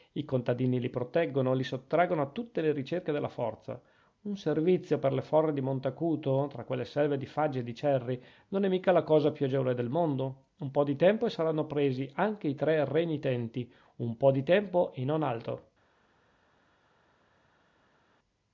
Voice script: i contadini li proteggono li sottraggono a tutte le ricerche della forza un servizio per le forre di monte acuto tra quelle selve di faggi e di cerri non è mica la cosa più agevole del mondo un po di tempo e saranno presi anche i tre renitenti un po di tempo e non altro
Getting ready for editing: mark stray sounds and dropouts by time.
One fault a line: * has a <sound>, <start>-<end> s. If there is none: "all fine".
all fine